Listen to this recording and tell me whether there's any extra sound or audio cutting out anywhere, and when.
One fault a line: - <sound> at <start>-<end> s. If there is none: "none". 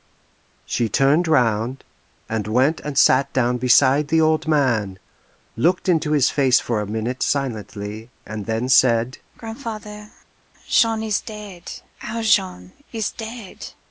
none